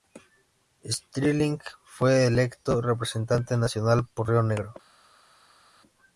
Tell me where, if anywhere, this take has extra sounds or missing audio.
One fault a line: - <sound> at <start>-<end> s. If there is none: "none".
none